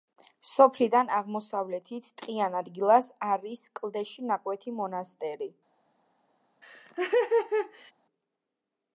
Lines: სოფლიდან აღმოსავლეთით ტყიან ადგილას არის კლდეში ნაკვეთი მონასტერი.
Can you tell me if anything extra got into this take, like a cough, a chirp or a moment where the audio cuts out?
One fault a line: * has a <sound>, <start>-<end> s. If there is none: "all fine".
* has a laugh, 6.6-7.9 s